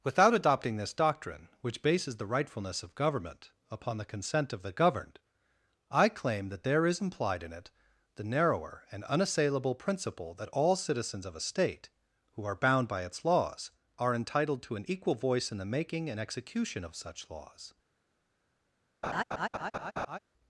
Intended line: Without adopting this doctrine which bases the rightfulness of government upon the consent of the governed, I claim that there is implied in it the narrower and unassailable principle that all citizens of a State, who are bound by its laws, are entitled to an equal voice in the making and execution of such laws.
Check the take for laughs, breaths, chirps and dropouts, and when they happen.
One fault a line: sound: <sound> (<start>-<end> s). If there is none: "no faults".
sound: laugh (19.0-20.2 s)